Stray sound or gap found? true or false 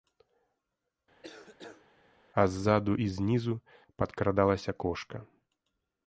true